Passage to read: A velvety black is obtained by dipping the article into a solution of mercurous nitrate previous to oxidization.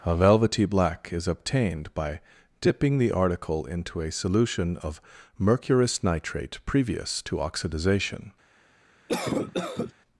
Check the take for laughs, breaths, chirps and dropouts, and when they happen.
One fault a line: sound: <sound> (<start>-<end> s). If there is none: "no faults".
sound: cough (9.1-9.9 s)